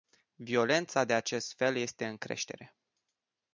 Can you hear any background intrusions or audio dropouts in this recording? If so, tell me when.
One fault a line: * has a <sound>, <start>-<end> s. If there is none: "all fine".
all fine